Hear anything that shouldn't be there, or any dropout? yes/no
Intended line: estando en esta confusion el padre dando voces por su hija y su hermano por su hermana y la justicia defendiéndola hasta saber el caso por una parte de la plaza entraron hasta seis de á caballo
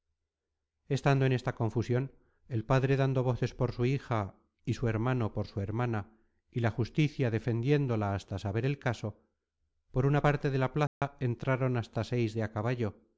yes